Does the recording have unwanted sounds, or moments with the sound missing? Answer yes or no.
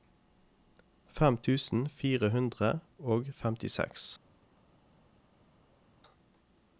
no